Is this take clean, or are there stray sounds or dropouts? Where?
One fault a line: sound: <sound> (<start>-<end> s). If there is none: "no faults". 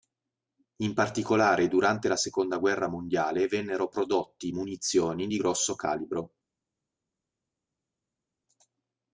no faults